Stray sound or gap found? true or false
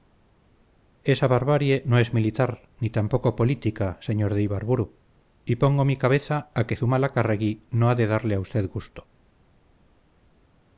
false